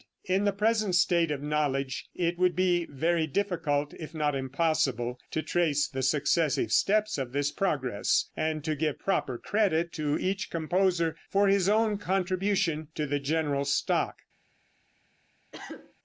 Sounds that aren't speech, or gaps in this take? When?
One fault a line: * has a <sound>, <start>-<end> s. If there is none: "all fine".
* has a cough, 15.5-15.9 s